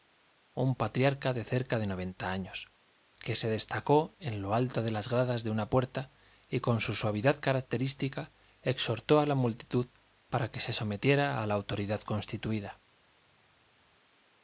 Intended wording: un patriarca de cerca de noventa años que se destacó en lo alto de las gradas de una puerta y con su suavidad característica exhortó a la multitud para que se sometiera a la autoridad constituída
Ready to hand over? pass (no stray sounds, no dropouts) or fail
pass